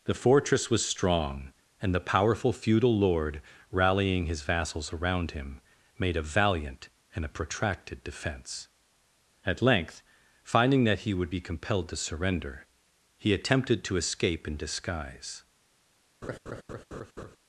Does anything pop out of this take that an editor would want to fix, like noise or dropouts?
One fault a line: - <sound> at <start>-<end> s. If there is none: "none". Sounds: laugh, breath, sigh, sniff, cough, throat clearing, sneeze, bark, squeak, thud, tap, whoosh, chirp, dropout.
- laugh at 16.2-17.4 s